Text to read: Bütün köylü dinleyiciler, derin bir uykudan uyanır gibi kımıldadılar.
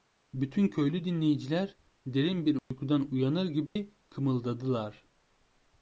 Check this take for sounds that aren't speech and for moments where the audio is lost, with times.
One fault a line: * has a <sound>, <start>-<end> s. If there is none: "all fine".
* has a dropout, 2.6-2.7 s
* has a dropout, 3.7-3.8 s